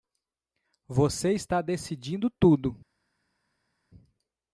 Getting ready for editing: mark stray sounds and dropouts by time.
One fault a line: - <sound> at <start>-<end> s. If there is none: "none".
none